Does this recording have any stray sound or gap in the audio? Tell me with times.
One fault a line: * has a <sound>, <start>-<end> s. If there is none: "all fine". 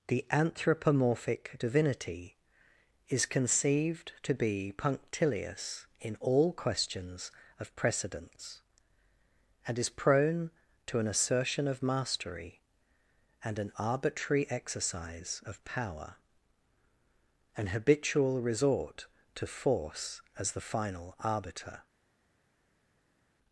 all fine